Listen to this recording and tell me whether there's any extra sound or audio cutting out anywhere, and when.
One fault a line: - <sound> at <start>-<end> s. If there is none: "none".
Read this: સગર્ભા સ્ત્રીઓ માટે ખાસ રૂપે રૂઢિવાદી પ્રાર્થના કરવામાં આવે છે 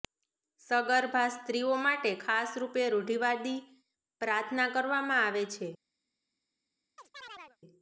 - chirp at 7.0-7.6 s